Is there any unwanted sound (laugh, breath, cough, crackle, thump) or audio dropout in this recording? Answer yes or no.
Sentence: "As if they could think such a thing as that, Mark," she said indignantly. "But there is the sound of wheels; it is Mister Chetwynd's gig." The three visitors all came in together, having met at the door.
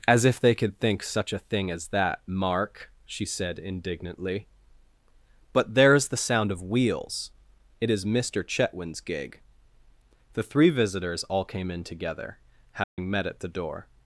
yes